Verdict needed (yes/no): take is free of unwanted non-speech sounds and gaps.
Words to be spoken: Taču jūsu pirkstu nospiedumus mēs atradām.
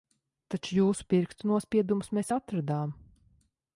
yes